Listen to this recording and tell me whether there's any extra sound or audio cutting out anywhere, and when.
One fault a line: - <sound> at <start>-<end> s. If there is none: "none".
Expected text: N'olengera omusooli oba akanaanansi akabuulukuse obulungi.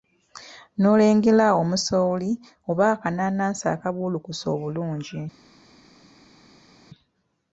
none